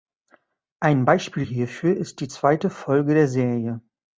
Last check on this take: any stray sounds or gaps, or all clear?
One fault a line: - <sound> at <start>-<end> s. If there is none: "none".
none